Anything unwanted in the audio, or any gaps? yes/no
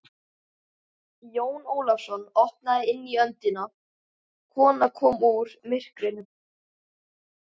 no